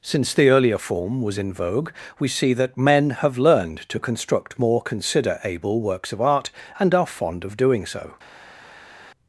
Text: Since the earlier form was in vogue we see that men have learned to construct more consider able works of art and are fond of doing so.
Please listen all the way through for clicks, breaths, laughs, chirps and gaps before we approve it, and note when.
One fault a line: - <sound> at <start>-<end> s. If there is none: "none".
none